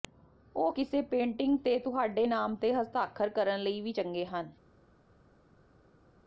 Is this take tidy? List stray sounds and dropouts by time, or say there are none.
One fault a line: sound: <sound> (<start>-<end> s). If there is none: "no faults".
no faults